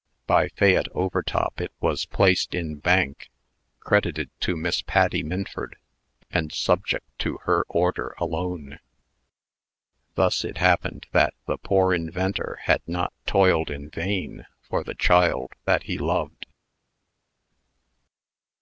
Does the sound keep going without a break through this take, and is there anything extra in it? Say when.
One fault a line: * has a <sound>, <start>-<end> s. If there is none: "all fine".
all fine